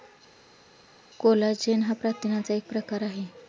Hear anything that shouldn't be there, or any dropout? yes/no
no